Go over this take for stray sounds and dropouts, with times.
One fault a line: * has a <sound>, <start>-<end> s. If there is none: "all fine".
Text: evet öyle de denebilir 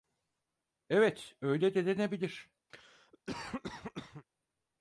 * has a cough, 2.7-4.2 s